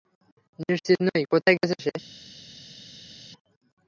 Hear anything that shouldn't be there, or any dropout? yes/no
no